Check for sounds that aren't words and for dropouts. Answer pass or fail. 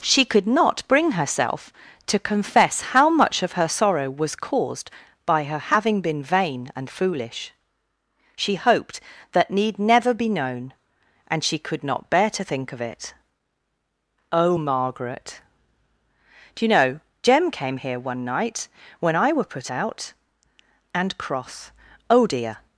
pass